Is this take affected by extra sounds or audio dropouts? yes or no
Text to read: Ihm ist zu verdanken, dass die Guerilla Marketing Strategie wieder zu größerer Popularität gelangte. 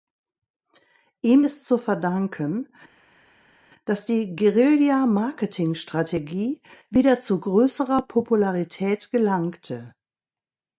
no